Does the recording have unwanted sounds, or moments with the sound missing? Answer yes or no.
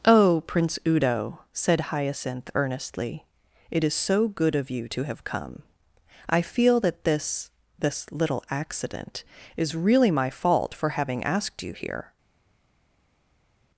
no